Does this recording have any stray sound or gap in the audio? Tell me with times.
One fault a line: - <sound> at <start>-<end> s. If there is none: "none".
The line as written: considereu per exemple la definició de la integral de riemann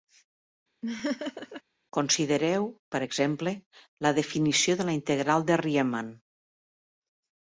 - laugh at 0.8-1.6 s